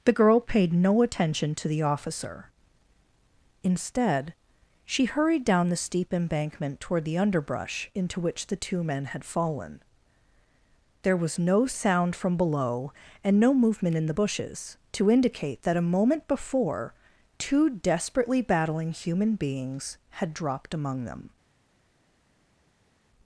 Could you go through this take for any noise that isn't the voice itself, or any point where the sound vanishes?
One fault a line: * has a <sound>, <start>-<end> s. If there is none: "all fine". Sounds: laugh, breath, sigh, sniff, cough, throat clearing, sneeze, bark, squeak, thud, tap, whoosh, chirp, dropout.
all fine